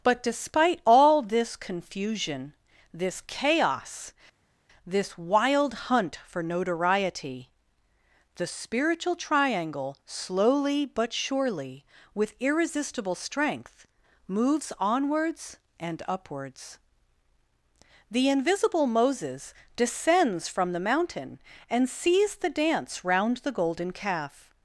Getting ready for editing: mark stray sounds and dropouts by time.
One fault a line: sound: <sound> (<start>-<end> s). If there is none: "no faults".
no faults